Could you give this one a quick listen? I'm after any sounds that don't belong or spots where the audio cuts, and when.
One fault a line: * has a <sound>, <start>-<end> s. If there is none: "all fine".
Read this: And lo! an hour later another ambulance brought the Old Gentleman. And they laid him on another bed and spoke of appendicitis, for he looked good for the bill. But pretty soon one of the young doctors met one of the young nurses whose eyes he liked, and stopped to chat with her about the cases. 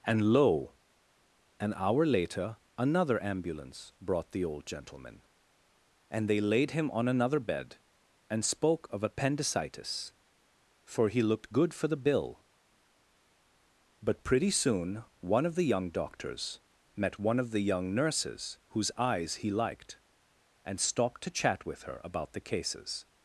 all fine